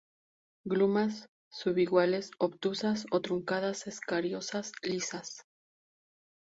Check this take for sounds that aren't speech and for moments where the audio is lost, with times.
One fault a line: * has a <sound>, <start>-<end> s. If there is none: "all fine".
all fine